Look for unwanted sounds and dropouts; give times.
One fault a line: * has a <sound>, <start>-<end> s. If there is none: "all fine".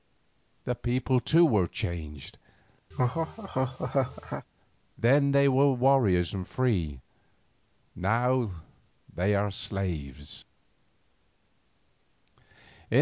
* has a laugh, 2.9-4.5 s